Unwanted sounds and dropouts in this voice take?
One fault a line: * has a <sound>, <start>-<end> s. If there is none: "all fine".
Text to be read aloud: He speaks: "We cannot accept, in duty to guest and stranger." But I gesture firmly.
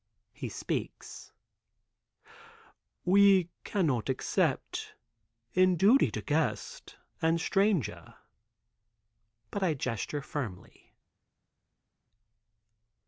all fine